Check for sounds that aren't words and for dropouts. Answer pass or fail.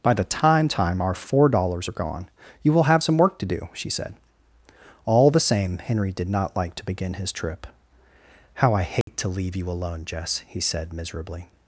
fail